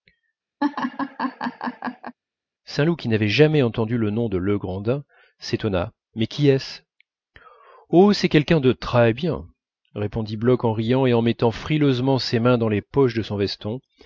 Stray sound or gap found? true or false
true